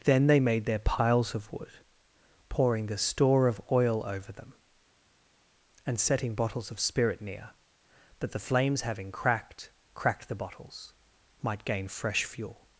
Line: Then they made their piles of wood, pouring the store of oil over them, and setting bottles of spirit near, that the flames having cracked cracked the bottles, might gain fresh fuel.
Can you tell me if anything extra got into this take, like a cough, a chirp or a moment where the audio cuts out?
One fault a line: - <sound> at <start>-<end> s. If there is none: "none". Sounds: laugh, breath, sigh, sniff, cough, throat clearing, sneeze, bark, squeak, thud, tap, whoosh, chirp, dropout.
none